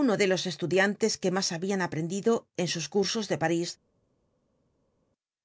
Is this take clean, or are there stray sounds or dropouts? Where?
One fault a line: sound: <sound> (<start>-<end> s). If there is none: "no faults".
no faults